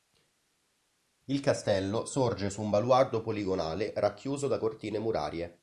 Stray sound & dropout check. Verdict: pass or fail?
pass